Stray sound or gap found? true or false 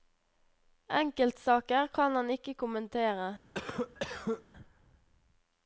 true